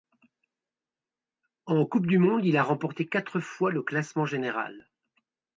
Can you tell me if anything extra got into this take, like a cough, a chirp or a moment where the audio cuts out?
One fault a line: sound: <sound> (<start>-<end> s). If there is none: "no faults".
no faults